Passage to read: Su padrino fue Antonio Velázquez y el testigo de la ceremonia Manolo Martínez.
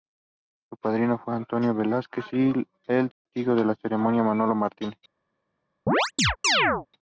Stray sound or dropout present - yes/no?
yes